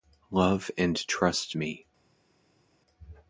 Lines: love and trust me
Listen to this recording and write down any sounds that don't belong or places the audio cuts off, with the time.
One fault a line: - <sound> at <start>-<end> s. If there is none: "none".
none